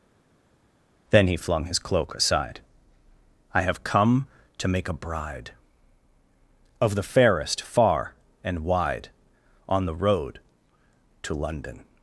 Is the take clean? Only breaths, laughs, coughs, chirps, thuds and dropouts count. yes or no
yes